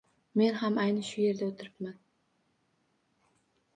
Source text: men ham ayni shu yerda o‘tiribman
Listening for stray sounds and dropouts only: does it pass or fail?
pass